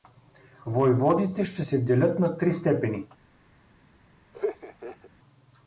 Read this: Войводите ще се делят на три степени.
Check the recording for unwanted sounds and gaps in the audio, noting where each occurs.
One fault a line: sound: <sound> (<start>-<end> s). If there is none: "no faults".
sound: laugh (4.3-5.1 s)